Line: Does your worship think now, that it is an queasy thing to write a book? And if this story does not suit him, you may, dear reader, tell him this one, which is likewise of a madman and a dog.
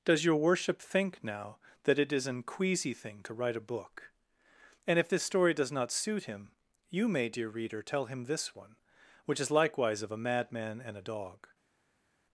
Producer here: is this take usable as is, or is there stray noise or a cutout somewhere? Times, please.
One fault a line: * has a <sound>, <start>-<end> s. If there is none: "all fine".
all fine